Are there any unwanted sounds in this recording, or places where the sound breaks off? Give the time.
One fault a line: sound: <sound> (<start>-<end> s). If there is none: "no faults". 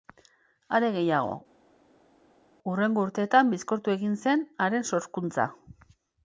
no faults